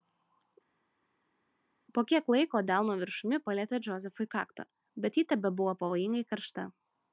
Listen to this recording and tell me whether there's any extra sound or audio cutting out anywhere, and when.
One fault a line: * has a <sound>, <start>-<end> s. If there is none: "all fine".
all fine